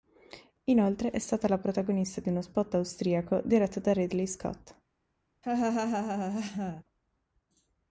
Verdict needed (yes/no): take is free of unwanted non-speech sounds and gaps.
no